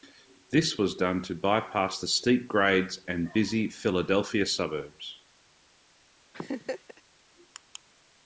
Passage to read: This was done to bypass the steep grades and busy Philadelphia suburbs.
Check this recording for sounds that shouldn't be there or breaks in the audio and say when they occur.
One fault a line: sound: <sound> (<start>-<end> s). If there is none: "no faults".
sound: laugh (6.3-7.0 s)